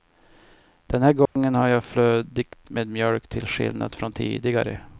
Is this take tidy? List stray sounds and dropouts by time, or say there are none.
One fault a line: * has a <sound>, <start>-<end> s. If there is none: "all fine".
* has a dropout, 1.3-1.4 s